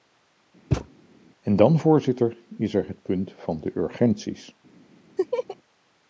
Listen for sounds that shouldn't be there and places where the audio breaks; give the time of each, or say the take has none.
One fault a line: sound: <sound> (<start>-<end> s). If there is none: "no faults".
sound: thud (0.7-0.9 s)
sound: laugh (5.2-5.6 s)